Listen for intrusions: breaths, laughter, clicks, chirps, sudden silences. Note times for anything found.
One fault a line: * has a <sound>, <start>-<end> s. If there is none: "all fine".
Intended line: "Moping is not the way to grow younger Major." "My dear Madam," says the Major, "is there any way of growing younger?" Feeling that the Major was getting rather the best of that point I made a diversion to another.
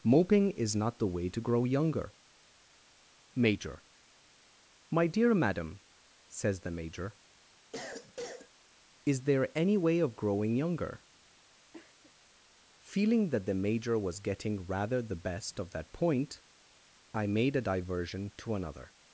* has a cough, 7.7-8.5 s
* has a cough, 11.7-12.1 s